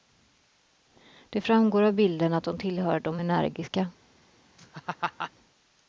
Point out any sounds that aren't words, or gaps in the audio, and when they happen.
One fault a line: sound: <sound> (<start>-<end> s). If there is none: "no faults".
sound: laugh (4.6-5.3 s)